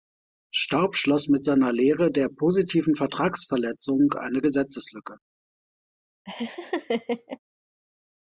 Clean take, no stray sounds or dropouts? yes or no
no